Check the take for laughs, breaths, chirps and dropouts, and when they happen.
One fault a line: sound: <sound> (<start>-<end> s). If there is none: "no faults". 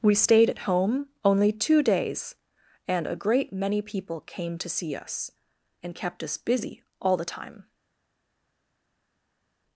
no faults